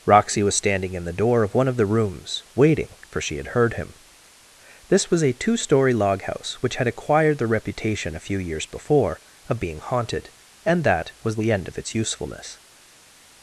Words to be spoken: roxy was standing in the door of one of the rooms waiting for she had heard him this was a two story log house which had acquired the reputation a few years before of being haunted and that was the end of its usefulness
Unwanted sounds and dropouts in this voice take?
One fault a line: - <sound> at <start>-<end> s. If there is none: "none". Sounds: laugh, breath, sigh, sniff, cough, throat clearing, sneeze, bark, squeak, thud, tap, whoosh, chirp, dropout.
none